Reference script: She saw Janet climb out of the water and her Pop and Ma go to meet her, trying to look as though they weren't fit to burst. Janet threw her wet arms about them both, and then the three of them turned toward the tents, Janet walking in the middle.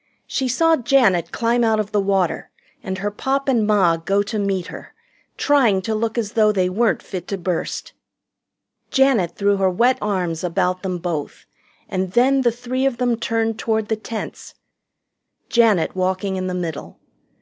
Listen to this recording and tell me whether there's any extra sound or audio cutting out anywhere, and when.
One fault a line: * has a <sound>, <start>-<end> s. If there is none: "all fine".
all fine